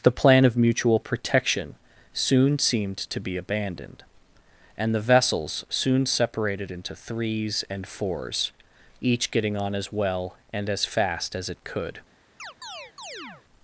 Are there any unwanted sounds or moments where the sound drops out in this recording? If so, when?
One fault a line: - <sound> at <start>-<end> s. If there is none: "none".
- chirp at 12.4-13.4 s